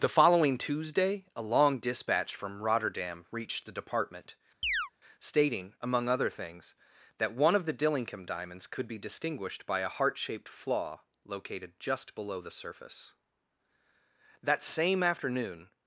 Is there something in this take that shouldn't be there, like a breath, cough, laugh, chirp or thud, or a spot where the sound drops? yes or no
yes